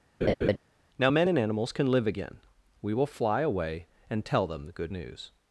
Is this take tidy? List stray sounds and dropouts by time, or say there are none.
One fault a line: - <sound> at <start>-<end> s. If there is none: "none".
- laugh at 0.2-0.6 s